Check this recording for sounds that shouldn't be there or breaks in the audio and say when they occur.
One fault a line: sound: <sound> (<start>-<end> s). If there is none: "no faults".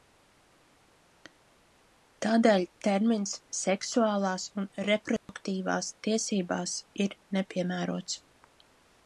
sound: dropout (5.2-5.3 s)